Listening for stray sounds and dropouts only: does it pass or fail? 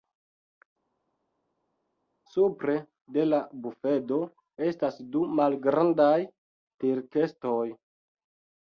pass